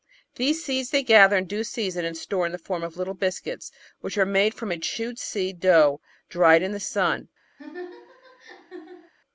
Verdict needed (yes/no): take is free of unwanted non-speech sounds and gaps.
no